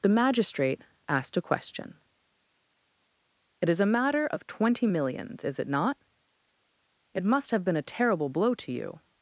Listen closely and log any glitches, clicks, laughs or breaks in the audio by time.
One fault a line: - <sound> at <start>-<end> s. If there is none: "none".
none